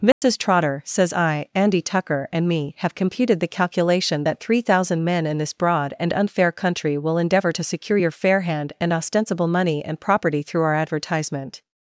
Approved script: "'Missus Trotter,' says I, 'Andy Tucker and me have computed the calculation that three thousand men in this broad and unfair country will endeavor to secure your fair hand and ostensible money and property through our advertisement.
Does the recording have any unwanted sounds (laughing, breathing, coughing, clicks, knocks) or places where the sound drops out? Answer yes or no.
yes